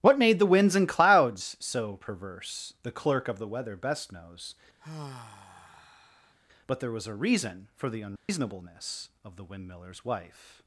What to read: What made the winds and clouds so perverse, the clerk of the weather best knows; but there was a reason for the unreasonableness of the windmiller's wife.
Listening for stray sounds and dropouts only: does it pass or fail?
fail